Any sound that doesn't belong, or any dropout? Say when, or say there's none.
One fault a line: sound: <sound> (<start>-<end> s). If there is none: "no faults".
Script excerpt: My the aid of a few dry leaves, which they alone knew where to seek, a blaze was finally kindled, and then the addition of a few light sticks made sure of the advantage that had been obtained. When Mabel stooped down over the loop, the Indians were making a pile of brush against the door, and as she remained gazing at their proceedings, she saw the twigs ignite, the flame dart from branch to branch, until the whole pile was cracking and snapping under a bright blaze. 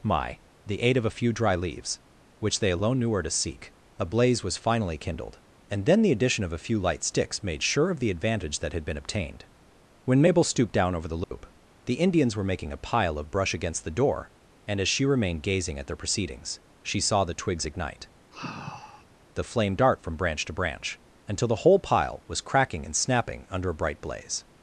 sound: dropout (11.2-11.3 s)
sound: sigh (18.3-19.1 s)